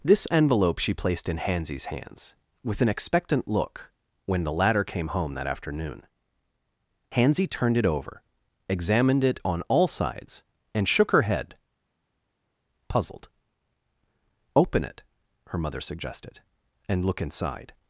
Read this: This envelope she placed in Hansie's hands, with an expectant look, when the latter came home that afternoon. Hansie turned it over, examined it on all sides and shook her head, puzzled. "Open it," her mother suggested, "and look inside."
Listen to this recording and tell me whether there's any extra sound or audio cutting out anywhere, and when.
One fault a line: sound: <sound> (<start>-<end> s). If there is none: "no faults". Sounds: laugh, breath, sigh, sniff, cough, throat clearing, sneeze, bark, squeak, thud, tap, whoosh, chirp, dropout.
no faults